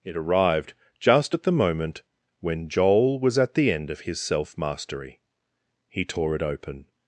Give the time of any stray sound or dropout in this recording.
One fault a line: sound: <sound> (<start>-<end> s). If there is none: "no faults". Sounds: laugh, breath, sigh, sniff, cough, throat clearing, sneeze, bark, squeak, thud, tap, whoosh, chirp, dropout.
no faults